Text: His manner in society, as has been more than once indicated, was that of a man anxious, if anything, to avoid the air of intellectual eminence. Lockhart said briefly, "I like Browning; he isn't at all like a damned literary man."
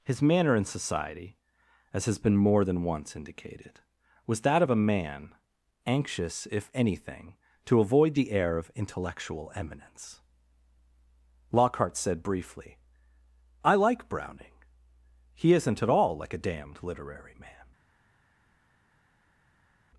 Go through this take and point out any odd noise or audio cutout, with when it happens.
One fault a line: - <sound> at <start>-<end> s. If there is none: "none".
none